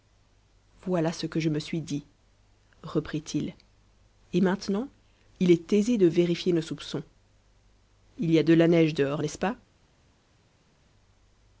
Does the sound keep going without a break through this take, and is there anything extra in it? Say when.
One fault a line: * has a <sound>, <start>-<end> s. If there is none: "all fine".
all fine